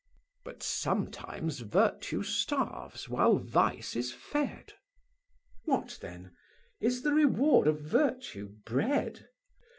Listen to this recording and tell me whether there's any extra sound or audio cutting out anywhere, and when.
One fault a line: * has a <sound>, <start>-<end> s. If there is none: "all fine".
all fine